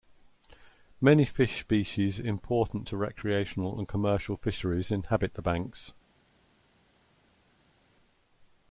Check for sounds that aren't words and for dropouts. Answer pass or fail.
pass